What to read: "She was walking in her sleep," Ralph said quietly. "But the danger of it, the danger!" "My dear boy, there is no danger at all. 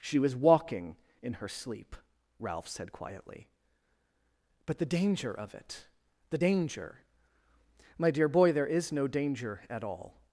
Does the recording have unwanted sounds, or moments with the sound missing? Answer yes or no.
no